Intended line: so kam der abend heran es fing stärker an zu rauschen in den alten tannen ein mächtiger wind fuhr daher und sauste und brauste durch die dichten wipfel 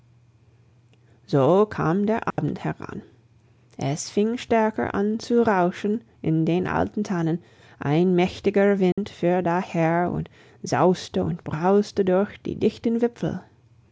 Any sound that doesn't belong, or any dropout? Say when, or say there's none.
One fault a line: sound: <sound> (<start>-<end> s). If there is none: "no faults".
sound: dropout (2.3-2.4 s)
sound: dropout (8.9-9.0 s)